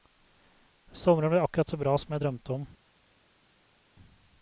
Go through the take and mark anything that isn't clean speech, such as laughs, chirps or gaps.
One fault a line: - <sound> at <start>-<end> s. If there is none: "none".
none